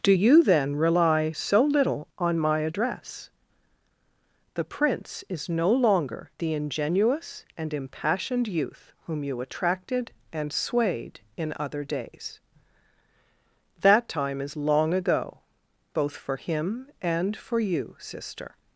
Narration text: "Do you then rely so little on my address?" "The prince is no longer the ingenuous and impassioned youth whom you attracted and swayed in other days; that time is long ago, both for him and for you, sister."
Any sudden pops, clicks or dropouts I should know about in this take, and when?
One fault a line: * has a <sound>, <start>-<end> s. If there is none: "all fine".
all fine